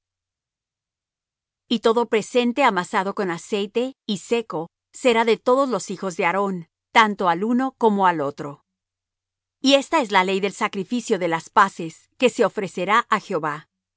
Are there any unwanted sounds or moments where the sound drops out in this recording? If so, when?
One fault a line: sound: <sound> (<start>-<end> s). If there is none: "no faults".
no faults